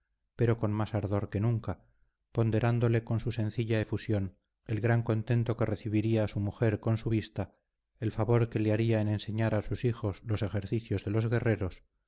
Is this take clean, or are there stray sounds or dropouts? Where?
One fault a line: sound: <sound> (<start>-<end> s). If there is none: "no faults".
no faults